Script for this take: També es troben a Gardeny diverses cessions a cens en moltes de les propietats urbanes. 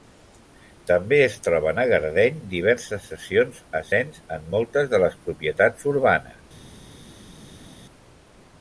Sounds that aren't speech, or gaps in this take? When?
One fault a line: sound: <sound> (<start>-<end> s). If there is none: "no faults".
no faults